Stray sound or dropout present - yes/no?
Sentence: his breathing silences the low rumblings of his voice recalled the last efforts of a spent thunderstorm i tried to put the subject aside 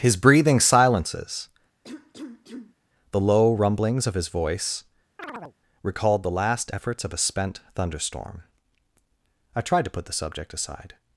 yes